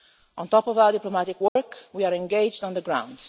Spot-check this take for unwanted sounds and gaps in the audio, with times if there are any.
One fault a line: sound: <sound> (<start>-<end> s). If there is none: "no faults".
sound: dropout (1.5-1.6 s)